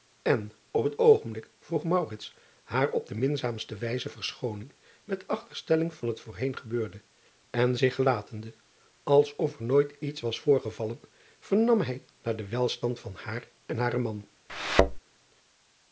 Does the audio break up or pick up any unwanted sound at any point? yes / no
yes